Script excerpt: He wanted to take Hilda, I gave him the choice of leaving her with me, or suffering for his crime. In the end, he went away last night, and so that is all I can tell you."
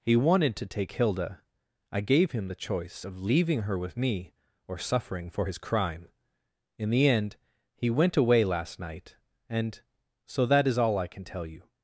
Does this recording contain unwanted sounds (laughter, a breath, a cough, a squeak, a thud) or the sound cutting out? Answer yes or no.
no